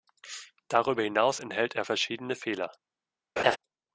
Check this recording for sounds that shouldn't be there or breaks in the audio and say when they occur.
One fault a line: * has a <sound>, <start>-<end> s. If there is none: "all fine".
* has a laugh, 3.4-3.6 s